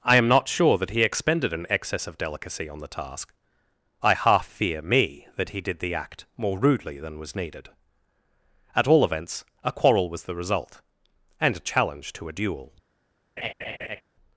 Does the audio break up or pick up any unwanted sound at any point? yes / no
yes